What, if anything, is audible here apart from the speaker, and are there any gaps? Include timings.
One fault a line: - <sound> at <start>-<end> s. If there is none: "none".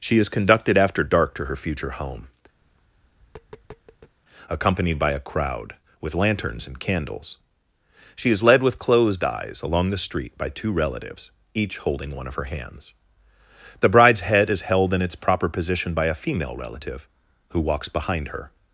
- tap at 2.6-4.2 s